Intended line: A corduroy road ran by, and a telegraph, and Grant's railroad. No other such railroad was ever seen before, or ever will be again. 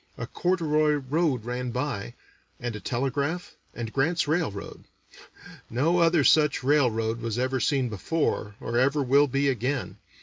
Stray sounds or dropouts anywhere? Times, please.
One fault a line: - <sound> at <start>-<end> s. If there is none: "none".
none